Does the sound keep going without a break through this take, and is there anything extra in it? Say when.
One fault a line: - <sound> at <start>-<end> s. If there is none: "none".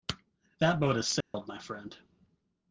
- dropout at 1.2-1.3 s